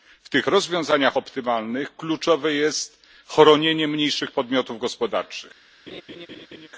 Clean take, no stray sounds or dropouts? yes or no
no